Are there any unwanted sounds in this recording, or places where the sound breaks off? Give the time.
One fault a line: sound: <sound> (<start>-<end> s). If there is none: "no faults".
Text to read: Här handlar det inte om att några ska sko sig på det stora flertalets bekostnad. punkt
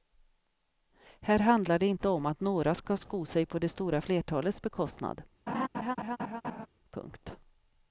sound: laugh (5.5-6.7 s)